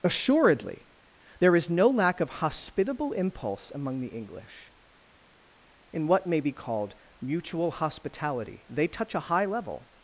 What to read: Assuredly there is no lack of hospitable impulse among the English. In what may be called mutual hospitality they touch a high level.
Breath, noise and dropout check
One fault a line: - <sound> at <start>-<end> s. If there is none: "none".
none